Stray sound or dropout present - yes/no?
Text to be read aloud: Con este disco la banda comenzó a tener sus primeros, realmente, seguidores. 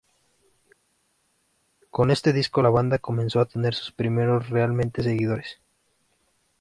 no